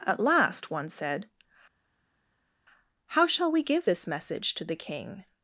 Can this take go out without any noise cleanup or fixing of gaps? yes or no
yes